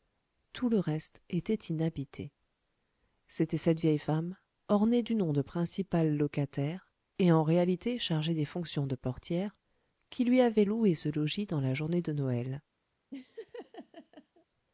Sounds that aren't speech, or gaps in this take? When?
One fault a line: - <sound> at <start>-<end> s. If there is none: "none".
- laugh at 13.1-14.5 s